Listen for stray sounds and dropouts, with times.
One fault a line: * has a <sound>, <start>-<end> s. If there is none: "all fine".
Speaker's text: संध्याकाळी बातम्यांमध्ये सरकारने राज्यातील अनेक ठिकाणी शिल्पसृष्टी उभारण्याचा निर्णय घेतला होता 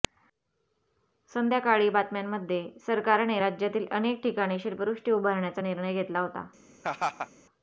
* has a laugh, 6.8-7.3 s